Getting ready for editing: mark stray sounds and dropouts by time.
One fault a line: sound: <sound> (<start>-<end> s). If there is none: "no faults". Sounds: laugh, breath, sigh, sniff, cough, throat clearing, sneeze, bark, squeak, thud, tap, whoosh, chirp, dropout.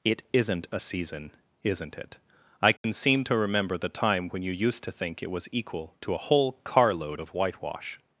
sound: dropout (2.8-2.8 s)